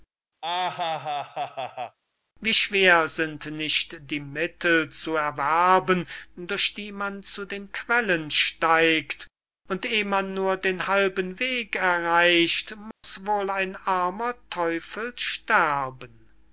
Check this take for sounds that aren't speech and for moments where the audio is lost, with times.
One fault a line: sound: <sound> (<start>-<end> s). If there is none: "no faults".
sound: laugh (0.4-2.0 s)
sound: dropout (12.9-13.0 s)